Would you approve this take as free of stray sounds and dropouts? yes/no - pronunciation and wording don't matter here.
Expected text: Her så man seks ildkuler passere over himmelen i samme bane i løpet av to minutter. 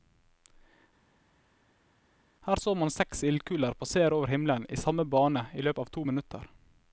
yes